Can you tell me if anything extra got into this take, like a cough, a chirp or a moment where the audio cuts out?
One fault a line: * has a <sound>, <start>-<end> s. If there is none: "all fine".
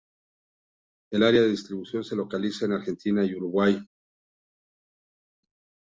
all fine